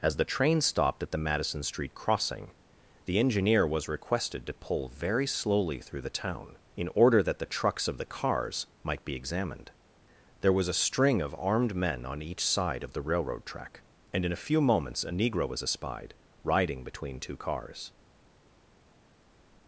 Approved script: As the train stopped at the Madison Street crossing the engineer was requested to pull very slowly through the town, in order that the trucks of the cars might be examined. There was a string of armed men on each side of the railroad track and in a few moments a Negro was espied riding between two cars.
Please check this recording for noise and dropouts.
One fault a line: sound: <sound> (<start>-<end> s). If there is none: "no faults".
no faults